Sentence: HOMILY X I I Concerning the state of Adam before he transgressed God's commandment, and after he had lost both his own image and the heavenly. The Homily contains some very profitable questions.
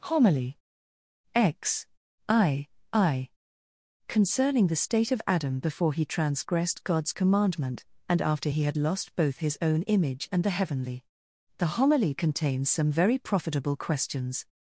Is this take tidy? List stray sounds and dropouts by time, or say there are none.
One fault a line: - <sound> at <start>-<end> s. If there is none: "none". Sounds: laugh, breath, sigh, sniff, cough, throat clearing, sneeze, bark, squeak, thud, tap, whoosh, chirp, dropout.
none